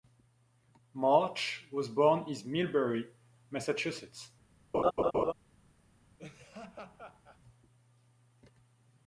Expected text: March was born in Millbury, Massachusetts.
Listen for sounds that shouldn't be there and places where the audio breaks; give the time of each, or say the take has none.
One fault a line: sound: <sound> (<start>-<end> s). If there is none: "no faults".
sound: laugh (4.7-5.3 s)
sound: laugh (6.2-7.4 s)